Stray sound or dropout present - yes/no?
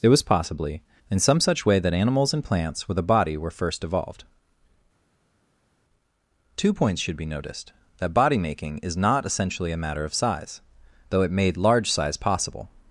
no